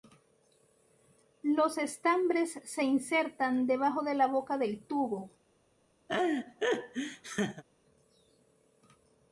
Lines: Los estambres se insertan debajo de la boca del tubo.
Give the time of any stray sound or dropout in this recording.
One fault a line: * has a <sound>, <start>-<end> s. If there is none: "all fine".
* has a laugh, 6.1-7.6 s